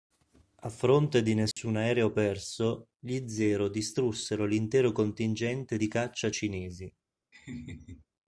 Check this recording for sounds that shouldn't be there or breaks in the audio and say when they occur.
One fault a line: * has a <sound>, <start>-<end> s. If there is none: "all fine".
* has a dropout, 1.5-1.6 s
* has a laugh, 7.3-8.1 s